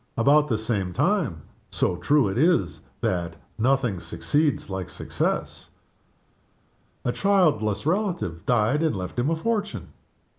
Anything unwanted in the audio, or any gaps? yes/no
no